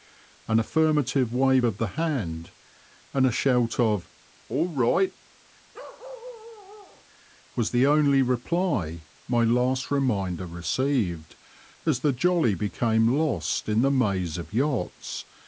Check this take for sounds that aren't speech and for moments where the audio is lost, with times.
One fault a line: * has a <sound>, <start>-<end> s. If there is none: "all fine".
* has a bark, 5.7-7.1 s